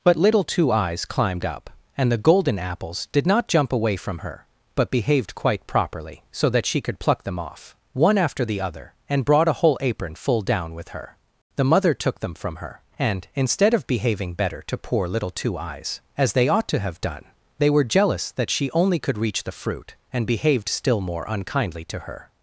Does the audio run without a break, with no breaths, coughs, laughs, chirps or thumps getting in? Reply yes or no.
yes